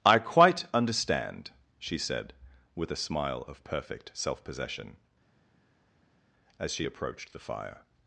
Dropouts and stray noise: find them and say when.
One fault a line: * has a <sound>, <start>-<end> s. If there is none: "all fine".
all fine